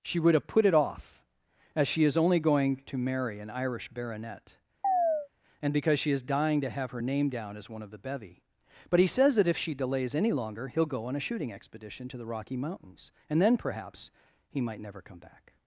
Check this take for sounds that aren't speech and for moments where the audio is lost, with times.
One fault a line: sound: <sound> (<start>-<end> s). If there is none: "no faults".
sound: chirp (4.8-5.3 s)